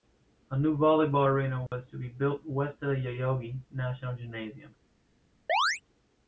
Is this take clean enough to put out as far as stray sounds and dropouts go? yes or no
no